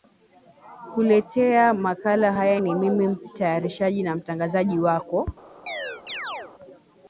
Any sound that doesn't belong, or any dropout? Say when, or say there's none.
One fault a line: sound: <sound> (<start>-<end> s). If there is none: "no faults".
sound: chirp (5.7-6.5 s)